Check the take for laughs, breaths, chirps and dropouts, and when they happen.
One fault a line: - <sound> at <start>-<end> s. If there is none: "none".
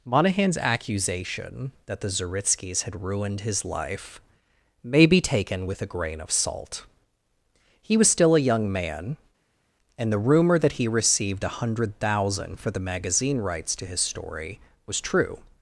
none